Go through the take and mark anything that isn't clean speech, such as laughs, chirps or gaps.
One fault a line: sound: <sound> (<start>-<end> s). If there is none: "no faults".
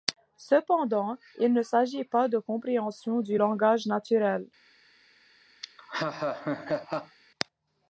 sound: laugh (5.6-7.2 s)